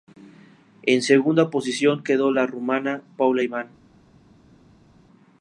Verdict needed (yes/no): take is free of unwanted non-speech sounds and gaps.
yes